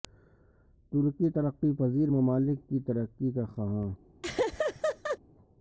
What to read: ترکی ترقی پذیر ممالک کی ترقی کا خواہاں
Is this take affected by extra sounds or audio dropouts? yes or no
yes